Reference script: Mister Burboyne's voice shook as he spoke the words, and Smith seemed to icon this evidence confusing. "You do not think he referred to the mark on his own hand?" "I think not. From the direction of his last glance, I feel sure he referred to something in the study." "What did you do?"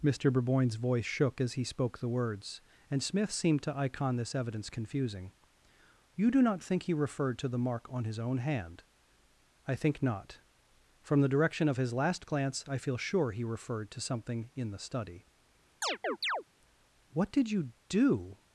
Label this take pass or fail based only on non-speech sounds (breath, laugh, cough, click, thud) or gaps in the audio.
fail